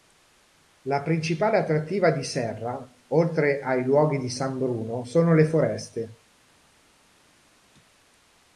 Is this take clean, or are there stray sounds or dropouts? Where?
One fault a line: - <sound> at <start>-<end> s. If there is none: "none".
none